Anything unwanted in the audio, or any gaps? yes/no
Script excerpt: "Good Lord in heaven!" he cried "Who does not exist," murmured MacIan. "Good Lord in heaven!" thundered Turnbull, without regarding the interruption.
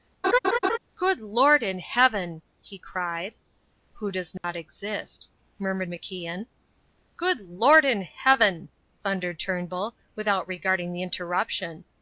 yes